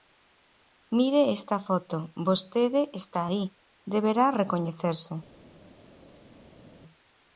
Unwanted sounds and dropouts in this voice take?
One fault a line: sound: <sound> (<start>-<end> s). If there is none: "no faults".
no faults